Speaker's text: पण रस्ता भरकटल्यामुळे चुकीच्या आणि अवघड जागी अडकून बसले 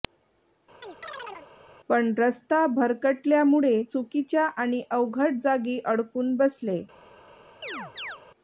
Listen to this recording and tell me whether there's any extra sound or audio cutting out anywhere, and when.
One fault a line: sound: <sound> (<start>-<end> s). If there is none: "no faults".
sound: chirp (0.8-1.5 s)
sound: chirp (7.6-8.2 s)